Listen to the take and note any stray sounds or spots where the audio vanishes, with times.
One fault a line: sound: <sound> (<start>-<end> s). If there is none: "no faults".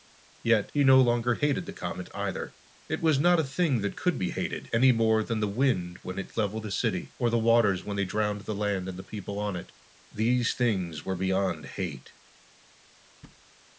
sound: thud (13.2-13.4 s)